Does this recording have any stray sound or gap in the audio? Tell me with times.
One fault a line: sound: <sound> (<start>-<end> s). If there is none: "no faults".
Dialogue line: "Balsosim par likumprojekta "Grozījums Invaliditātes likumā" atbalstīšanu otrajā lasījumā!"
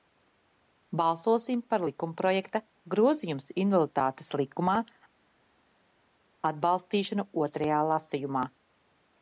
no faults